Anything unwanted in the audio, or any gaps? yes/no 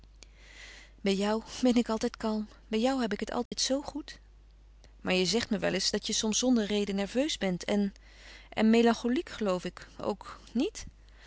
yes